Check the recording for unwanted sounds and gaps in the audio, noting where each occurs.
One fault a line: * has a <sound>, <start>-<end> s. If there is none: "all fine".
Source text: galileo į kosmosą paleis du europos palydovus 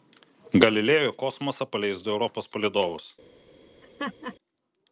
* has a laugh, 3.8-4.4 s